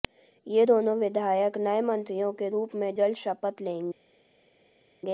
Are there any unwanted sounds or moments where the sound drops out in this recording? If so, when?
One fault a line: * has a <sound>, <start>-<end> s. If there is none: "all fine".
all fine